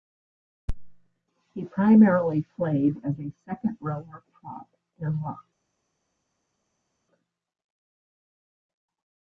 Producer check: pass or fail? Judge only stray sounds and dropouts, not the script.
pass